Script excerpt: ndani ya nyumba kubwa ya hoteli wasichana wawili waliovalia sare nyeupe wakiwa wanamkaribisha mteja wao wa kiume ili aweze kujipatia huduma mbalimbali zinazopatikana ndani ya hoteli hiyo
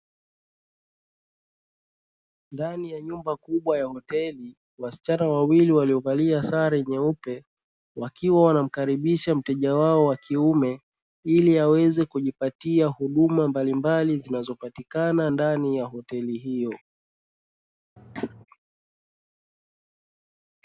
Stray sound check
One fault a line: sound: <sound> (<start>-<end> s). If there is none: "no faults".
sound: cough (18.0-18.5 s)